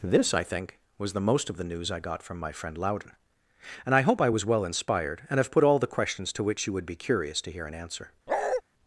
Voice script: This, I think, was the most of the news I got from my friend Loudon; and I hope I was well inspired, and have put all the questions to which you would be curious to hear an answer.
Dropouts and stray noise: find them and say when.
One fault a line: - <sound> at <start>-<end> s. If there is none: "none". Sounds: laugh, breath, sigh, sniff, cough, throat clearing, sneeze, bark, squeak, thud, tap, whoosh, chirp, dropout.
- bark at 8.3-8.6 s